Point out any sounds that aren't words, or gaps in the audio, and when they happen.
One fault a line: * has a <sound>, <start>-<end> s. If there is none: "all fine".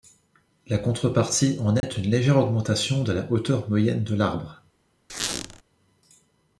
* has a dropout, 1.8-1.8 s
* has a squeak, 5.1-5.6 s